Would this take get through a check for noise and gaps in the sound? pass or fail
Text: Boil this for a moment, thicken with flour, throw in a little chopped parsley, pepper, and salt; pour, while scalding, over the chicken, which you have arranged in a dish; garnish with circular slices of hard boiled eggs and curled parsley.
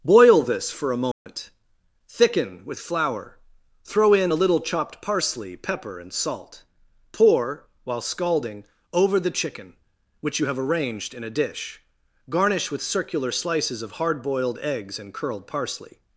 fail